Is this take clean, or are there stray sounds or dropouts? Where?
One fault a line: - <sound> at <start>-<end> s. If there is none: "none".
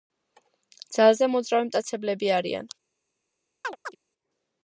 - chirp at 3.6-4.0 s